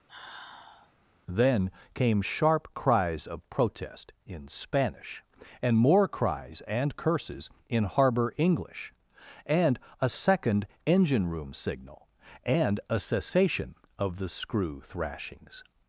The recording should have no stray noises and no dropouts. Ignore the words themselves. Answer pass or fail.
fail